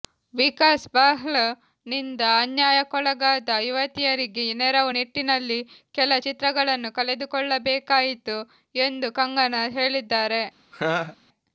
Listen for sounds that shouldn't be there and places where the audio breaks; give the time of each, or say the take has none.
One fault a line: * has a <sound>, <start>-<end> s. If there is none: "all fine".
* has a laugh, 10.7-11.2 s